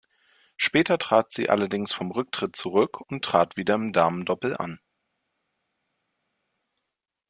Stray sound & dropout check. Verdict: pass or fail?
pass